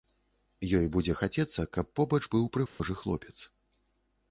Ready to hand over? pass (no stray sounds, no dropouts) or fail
fail